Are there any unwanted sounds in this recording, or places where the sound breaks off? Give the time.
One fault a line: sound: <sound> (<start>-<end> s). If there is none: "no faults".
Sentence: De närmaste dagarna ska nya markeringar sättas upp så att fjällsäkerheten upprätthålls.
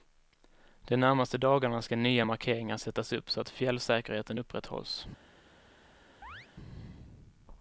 sound: chirp (6.2-6.5 s)